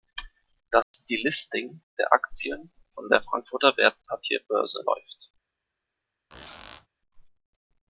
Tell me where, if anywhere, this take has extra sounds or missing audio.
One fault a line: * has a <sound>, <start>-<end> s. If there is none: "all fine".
* has a dropout, 0.8-0.9 s
* has a squeak, 6.3-6.9 s